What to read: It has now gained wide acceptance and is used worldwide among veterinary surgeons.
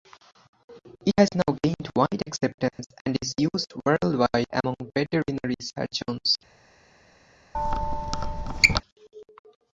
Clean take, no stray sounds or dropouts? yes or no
no